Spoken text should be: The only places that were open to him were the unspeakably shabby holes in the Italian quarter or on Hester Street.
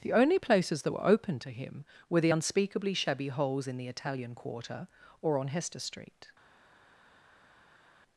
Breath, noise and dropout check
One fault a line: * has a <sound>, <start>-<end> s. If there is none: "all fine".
all fine